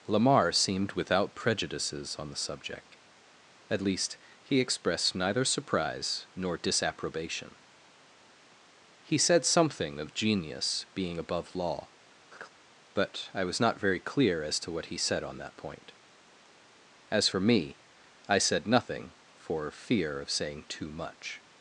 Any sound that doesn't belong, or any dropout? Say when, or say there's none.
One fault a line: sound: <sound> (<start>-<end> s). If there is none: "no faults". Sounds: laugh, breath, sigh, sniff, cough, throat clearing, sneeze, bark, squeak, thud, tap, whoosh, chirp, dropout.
sound: laugh (12.3-12.5 s)